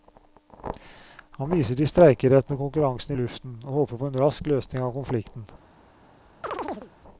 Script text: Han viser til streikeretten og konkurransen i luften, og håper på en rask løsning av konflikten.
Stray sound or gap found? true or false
true